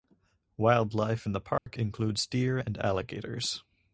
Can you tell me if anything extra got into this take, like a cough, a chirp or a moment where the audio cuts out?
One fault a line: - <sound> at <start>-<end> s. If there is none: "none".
- dropout at 1.6-1.7 s